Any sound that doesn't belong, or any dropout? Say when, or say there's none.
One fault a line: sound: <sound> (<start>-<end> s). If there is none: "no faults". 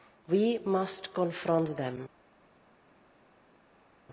no faults